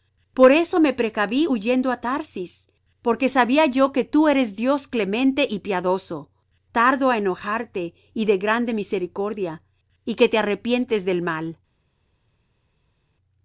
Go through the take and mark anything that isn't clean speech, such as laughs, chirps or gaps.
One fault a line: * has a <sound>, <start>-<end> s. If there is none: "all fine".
all fine